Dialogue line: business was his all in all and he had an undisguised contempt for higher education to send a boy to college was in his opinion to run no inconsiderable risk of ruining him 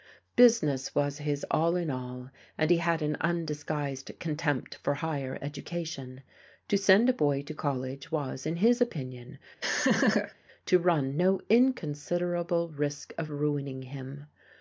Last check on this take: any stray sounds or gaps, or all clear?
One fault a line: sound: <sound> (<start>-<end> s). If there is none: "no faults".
sound: laugh (9.6-10.3 s)